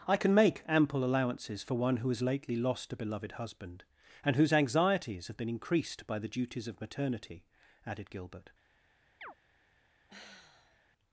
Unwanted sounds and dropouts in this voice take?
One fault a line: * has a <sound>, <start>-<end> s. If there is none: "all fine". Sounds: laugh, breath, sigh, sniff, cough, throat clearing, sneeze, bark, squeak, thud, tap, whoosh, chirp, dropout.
* has a chirp, 9.2-9.3 s
* has a sigh, 10.1-10.8 s